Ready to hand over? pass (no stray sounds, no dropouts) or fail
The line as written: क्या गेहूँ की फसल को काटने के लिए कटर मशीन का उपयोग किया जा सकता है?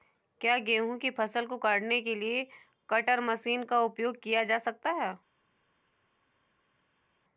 pass